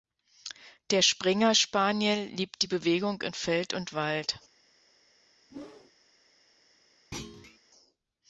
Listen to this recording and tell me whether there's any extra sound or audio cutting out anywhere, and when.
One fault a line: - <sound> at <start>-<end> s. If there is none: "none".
- whoosh at 5.5-5.9 s
- thud at 7.1-7.6 s